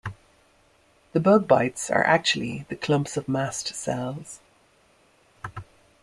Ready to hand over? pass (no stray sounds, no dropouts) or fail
pass